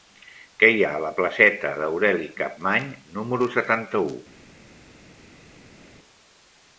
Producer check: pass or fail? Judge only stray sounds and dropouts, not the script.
pass